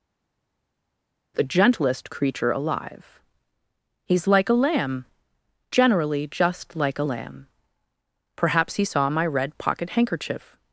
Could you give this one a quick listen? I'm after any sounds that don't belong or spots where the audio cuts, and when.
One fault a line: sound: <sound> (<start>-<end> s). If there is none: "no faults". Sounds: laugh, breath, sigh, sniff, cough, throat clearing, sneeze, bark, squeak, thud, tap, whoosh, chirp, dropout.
no faults